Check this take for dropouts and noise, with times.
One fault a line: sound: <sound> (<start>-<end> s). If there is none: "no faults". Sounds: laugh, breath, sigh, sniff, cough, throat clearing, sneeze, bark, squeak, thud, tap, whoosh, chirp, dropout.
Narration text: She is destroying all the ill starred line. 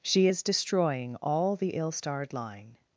no faults